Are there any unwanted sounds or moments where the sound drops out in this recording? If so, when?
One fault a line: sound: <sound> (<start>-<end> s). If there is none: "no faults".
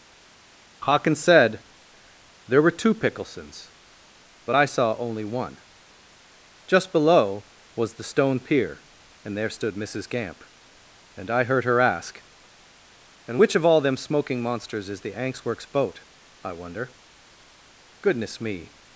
no faults